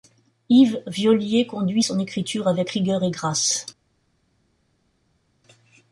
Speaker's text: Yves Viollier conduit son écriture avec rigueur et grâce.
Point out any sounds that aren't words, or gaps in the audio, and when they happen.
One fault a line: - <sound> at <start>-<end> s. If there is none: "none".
none